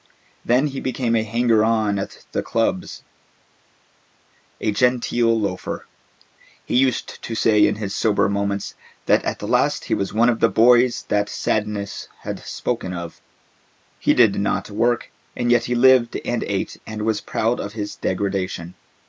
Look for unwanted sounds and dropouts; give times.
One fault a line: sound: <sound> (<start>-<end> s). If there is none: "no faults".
no faults